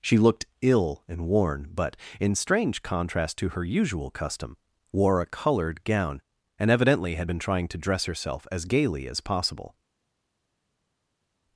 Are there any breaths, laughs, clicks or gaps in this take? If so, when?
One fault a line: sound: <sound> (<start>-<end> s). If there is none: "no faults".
no faults